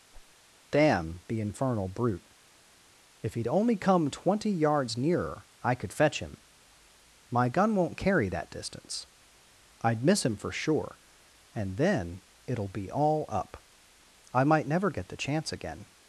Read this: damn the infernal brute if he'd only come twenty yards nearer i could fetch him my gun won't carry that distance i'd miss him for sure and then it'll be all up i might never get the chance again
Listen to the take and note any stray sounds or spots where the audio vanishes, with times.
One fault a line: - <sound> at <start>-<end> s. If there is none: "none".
- whoosh at 0.1-0.4 s